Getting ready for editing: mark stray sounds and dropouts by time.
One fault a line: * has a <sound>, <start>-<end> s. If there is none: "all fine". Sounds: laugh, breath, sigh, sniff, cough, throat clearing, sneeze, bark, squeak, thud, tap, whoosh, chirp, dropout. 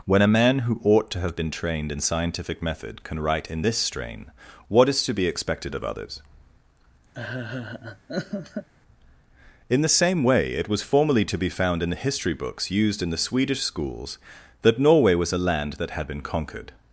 * has a laugh, 7.1-8.7 s